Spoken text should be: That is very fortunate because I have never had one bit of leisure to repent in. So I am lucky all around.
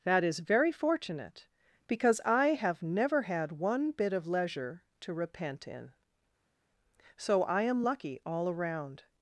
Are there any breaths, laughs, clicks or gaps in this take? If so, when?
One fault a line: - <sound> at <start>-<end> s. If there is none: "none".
none